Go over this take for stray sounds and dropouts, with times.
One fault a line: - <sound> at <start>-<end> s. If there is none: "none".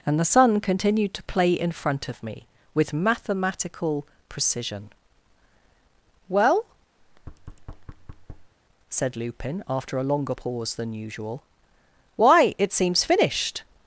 - thud at 7.0-8.5 s